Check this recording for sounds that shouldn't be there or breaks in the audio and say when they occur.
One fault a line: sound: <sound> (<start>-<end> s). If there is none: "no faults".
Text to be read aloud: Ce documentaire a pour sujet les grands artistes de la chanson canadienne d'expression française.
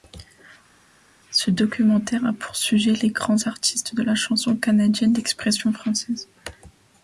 no faults